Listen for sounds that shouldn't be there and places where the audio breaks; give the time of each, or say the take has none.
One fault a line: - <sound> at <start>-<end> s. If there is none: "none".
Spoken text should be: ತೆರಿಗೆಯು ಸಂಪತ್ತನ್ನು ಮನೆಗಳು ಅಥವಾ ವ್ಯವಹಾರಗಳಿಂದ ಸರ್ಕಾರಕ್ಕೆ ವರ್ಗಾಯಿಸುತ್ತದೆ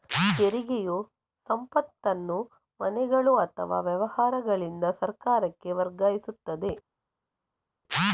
none